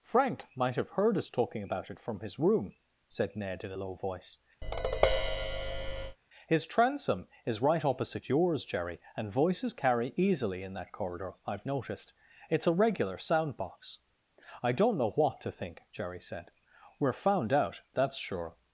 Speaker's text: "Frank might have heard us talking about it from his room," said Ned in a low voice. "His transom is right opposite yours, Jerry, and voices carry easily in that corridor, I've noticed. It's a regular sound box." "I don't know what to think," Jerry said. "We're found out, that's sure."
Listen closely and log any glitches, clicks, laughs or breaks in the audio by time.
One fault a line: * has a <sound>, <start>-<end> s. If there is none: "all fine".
* has a tap, 4.6-6.2 s